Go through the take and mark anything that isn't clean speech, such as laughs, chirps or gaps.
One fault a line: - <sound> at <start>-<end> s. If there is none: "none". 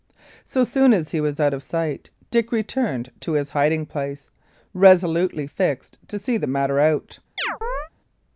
- chirp at 7.4-7.9 s